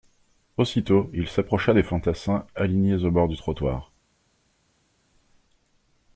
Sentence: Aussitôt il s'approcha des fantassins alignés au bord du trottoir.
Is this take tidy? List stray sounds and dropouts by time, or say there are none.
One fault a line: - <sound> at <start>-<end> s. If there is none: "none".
none